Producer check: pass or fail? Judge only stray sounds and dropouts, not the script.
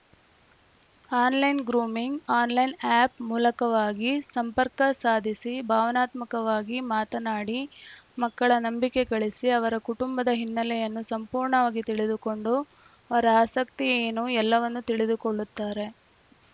pass